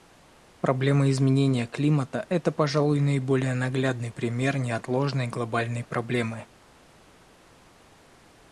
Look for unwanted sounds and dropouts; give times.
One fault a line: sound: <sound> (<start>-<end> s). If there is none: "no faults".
no faults